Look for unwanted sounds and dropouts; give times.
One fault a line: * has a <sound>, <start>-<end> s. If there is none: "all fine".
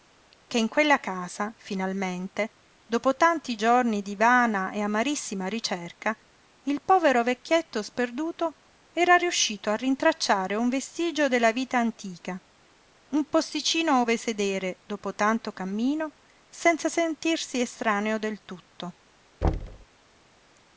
* has a thud, 19.4-19.9 s